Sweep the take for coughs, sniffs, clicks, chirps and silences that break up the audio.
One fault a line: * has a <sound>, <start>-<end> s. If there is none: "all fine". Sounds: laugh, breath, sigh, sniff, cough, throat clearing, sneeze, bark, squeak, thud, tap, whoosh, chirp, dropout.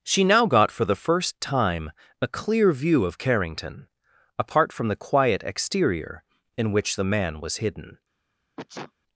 * has a sneeze, 8.6-8.9 s